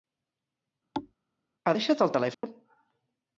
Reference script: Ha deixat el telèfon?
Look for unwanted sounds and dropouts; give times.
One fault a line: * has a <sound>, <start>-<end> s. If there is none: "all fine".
* has a thud, 0.9-1.1 s
* has a dropout, 2.3-2.4 s